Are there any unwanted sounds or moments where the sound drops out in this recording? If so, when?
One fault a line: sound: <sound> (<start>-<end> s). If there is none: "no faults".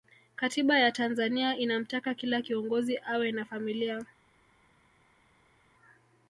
no faults